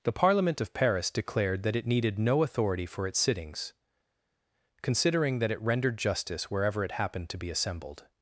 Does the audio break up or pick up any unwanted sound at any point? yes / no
no